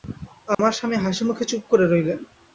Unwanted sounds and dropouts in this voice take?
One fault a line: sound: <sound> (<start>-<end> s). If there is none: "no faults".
sound: dropout (0.5-0.6 s)